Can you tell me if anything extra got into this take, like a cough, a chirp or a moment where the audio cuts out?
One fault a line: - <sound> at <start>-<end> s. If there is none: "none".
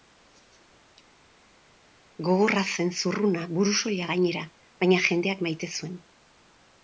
none